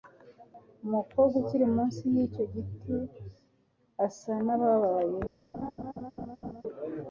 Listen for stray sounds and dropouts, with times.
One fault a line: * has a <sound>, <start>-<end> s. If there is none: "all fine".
* has a laugh, 5.5-6.6 s